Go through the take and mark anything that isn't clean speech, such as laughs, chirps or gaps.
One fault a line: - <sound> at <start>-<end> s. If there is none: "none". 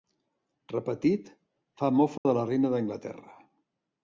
- dropout at 2.2-2.3 s